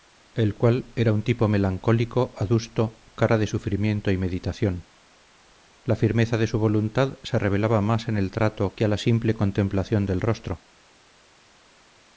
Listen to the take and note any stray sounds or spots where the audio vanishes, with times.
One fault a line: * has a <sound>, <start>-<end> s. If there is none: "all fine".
all fine